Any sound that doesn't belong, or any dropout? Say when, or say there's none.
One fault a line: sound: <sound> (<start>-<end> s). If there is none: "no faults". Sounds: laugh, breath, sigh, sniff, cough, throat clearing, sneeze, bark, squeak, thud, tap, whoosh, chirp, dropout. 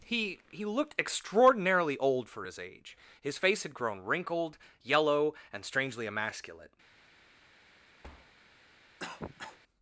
sound: thud (8.0-8.3 s)
sound: cough (9.0-9.6 s)